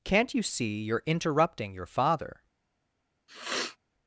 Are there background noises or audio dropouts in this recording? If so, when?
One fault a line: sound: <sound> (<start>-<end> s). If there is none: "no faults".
sound: sniff (3.3-3.8 s)